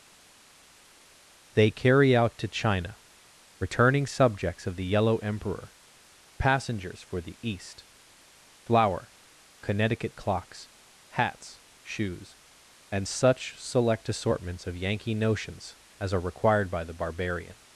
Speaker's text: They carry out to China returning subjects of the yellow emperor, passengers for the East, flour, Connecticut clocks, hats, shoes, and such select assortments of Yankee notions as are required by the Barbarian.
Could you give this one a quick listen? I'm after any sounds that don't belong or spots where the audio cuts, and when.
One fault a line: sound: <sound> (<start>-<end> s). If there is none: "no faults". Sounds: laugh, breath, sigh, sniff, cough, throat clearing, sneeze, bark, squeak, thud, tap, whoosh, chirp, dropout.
no faults